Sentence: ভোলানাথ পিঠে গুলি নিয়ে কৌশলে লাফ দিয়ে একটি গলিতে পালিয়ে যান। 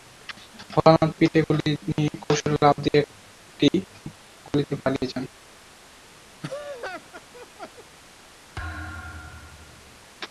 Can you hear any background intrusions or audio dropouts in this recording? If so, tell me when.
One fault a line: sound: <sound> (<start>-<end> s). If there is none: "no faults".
sound: laugh (6.4-7.8 s)
sound: thud (8.6-10.1 s)